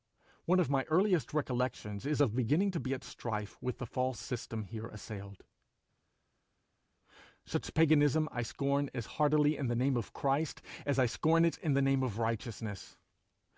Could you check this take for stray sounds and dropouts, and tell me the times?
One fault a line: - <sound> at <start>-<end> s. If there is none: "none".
none